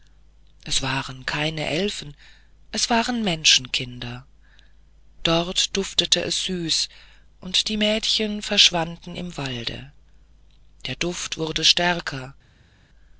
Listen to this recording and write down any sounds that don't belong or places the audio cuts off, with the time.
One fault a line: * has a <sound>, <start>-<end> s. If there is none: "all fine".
all fine